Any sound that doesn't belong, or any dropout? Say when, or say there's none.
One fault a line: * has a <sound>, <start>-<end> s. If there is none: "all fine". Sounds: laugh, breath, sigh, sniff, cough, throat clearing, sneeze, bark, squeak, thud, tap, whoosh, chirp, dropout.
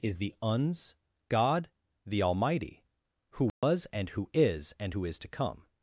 * has a dropout, 3.5-3.6 s